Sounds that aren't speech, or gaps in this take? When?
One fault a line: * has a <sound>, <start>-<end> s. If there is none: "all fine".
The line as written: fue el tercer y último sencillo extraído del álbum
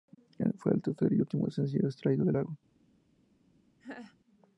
* has a laugh, 3.8-4.2 s